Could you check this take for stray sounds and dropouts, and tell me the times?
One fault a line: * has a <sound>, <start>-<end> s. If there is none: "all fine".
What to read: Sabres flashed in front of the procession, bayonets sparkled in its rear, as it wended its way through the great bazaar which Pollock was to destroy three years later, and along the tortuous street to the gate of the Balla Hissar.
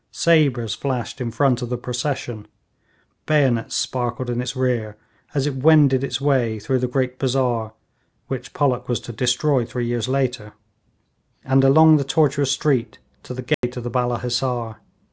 * has a dropout, 13.5-13.6 s